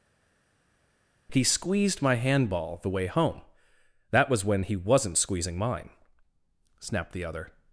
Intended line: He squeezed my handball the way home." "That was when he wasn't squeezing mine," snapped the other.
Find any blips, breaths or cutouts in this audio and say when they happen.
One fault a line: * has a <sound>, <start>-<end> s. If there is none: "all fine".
all fine